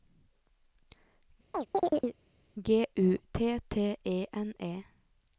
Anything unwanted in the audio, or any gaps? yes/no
yes